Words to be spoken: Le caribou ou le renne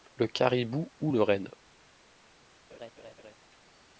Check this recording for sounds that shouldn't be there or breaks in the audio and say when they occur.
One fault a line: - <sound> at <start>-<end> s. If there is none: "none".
- laugh at 2.7-3.4 s